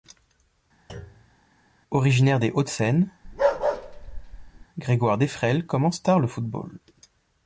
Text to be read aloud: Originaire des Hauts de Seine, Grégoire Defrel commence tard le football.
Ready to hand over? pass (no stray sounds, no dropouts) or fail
fail